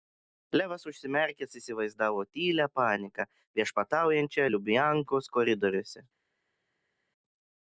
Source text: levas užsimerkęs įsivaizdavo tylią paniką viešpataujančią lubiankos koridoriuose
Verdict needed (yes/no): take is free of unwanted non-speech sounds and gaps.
yes